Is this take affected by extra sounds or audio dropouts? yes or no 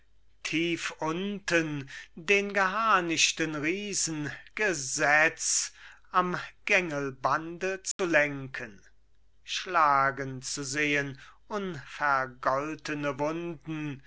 yes